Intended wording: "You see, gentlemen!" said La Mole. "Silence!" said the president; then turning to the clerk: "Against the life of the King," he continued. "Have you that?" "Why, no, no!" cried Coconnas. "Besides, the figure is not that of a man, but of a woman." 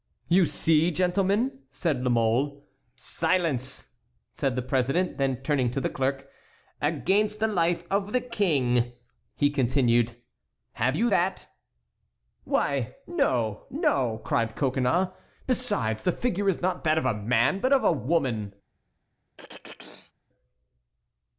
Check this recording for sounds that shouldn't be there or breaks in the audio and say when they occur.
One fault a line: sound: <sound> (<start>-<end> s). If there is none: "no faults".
sound: throat clearing (19.4-20.1 s)